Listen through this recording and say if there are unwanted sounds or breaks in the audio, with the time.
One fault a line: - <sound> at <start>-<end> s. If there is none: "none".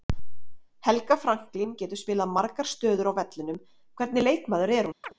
- chirp at 5.0-5.1 s